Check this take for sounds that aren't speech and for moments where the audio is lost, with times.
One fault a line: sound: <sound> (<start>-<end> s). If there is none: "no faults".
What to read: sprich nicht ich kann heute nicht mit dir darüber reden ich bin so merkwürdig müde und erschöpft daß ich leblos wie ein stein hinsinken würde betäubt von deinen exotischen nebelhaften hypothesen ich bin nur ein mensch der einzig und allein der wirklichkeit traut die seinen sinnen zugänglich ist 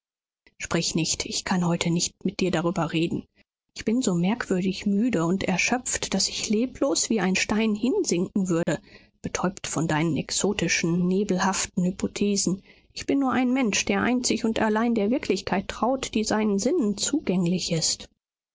sound: dropout (8.6-8.7 s)